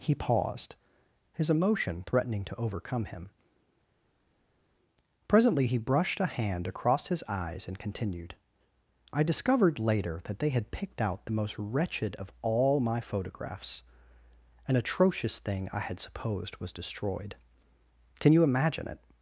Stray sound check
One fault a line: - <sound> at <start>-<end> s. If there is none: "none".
none